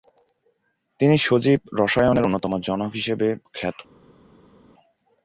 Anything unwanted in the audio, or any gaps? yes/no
no